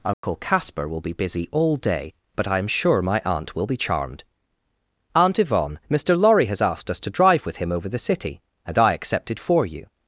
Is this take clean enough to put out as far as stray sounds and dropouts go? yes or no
no